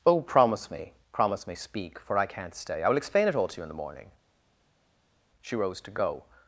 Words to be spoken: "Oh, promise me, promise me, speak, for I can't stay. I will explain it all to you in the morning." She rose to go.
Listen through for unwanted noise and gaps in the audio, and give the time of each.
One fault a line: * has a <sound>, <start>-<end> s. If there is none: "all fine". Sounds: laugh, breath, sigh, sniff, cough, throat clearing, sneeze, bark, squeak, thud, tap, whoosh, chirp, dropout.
all fine